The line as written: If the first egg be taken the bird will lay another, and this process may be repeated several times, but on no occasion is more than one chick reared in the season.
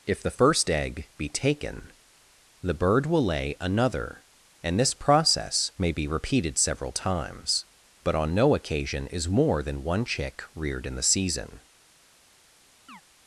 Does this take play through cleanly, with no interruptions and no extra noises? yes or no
no